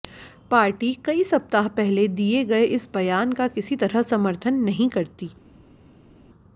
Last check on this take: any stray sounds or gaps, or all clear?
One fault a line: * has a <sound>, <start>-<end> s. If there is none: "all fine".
all fine